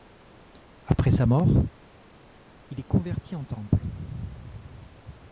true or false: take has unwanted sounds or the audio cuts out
false